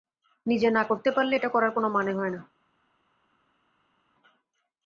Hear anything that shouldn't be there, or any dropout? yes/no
no